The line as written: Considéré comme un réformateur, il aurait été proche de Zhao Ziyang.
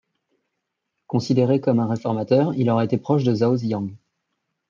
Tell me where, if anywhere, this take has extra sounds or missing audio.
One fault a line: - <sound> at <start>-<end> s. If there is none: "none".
none